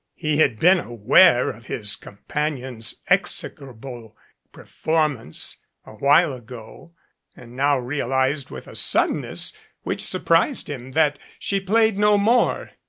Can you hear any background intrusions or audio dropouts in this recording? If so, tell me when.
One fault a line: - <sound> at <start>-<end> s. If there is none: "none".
none